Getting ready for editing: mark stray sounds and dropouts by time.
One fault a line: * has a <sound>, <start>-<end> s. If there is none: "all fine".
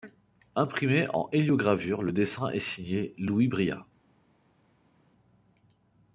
all fine